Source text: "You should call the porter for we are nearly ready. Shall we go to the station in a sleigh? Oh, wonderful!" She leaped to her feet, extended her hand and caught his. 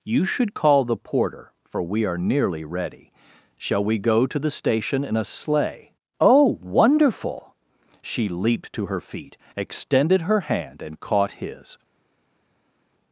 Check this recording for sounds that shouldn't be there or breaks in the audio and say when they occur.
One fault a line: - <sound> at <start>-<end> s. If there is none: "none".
none